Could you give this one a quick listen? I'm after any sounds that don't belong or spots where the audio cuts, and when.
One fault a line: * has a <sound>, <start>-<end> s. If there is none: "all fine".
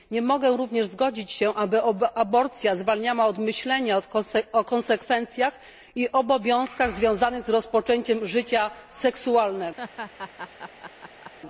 * has a laugh, 9.8-11.3 s